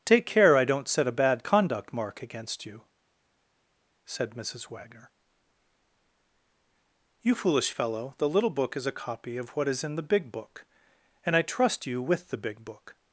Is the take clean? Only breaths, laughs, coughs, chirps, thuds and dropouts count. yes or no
yes